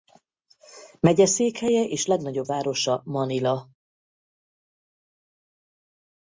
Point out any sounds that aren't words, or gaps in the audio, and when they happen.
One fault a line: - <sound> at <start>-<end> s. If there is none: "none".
none